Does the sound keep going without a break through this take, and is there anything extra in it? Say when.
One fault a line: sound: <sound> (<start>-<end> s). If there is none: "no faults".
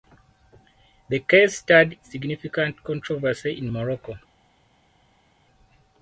no faults